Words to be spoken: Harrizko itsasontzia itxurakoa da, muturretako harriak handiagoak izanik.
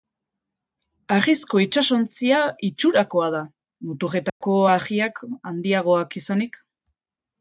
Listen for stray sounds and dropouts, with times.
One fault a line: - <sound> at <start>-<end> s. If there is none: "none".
- dropout at 4.3-4.4 s